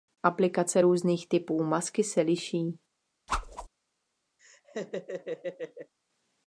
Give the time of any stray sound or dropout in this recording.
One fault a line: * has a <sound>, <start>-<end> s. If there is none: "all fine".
* has a whoosh, 3.3-3.7 s
* has a laugh, 4.4-5.9 s